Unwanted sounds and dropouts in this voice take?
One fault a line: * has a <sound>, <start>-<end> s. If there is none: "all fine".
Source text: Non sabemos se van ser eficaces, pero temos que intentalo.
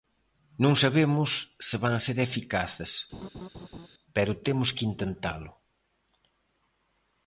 * has a laugh, 3.1-3.9 s